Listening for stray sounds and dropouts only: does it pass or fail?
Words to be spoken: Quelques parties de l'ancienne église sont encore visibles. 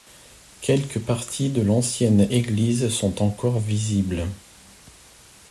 pass